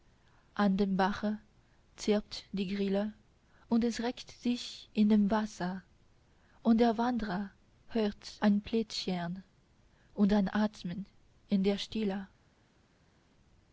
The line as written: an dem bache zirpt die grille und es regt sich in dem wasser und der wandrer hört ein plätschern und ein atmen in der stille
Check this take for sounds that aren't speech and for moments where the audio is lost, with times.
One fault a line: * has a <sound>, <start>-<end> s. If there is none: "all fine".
all fine